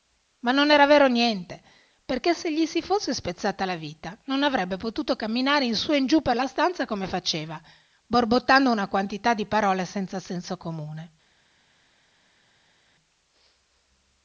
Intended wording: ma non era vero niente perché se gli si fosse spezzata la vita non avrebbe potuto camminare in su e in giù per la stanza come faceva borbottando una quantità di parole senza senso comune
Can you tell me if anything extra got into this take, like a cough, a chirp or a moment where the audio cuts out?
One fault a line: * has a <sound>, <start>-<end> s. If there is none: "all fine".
all fine